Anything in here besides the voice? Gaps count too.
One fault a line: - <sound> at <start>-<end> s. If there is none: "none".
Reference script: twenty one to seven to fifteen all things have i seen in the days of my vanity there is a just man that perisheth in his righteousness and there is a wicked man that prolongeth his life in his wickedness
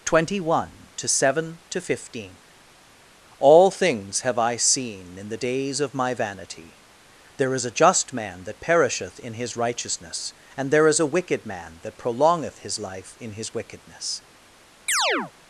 - chirp at 14.9-15.3 s